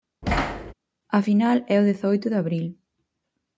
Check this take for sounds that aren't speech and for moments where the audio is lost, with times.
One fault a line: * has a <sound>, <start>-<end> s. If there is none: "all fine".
* has a thud, 0.2-0.7 s